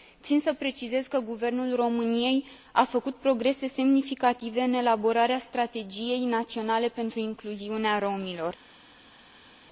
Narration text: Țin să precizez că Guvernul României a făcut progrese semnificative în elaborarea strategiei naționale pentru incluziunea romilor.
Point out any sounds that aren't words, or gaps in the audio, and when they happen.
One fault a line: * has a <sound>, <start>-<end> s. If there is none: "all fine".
all fine